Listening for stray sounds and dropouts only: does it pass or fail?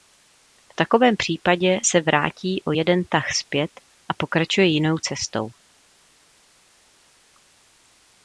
pass